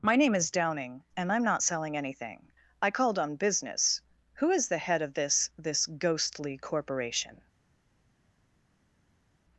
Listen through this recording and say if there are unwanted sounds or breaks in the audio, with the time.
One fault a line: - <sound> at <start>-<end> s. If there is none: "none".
none